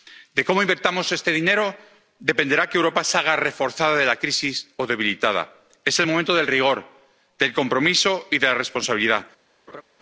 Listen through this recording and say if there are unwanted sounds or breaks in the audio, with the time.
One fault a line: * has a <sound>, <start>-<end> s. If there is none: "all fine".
* has a laugh, 9.7-9.8 s